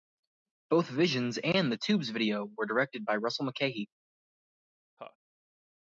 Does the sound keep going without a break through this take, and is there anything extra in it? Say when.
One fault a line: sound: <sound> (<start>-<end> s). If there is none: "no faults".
sound: laugh (5.0-5.2 s)